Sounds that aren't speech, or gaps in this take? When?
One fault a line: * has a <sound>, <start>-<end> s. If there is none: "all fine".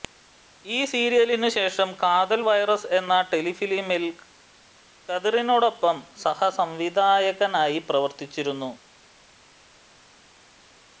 all fine